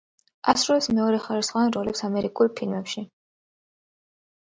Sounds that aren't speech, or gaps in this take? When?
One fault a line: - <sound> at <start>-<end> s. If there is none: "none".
none